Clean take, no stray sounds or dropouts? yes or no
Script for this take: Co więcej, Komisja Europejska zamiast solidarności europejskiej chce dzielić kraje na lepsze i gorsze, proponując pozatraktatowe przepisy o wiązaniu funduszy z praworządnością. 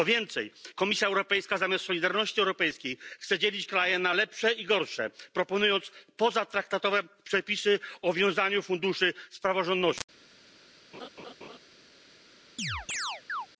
no